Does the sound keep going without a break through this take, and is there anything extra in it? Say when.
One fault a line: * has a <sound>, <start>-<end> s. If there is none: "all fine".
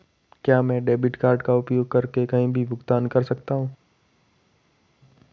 all fine